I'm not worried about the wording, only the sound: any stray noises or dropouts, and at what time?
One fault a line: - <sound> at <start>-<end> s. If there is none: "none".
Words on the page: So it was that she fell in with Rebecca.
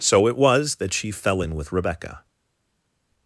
none